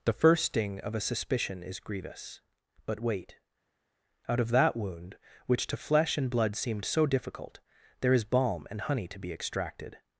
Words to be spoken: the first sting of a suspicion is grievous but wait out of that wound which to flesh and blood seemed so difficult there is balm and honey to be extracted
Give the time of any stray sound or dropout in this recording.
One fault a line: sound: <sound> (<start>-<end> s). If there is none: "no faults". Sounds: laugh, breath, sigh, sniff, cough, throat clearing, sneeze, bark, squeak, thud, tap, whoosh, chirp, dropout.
no faults